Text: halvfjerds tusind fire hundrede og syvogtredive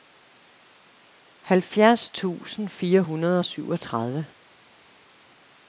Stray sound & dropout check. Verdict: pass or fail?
pass